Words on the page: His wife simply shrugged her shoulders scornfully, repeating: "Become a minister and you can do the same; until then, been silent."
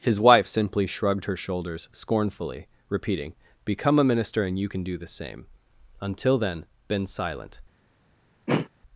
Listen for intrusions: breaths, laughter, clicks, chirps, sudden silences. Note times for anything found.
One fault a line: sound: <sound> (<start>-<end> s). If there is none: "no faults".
sound: throat clearing (8.5-8.7 s)